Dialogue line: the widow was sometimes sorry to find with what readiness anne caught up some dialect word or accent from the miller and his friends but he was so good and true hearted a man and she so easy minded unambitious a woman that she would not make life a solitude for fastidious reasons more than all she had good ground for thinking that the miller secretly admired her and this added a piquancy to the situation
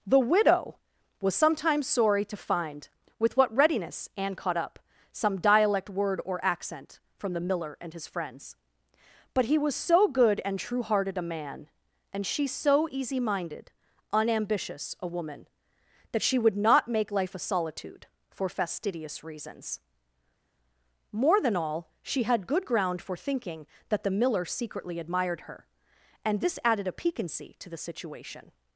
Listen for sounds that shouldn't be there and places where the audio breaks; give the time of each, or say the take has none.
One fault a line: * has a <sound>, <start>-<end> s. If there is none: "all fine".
all fine